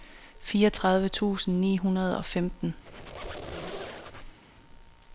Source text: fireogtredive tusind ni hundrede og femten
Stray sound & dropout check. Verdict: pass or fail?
fail